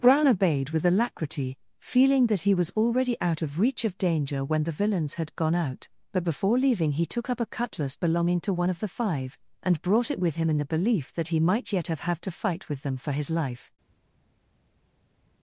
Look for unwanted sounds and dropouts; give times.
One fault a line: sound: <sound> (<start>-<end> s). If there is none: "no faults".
no faults